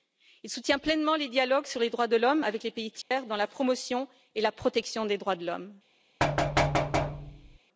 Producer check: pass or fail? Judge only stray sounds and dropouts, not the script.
fail